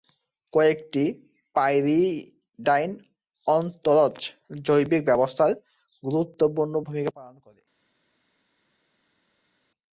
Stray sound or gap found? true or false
false